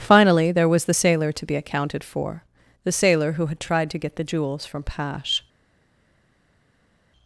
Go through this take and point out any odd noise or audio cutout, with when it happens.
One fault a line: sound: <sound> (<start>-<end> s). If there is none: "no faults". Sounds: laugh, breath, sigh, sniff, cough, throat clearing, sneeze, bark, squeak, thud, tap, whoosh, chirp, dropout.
no faults